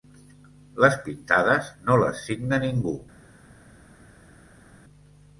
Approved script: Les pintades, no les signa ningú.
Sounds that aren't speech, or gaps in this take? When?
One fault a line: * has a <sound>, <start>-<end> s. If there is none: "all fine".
all fine